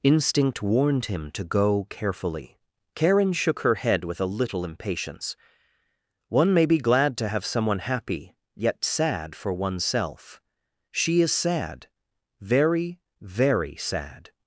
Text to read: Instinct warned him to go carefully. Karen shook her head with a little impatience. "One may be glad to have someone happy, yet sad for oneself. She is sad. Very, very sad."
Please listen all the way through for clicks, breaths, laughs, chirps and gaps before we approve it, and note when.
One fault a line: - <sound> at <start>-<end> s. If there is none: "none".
none